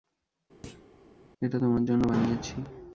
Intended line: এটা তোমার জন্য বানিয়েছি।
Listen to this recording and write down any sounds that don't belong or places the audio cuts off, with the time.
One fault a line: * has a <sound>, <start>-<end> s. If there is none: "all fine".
* has a thud, 0.6-0.9 s